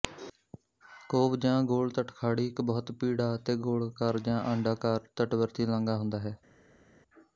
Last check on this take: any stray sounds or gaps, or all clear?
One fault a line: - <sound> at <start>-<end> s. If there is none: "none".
none